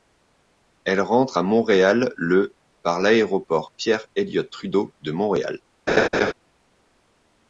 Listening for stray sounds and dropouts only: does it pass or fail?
fail